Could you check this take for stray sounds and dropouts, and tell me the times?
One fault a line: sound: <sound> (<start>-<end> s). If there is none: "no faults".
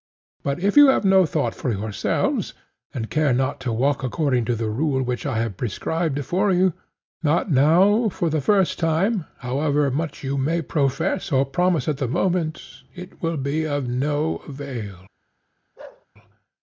sound: bark (15.8-16.1 s)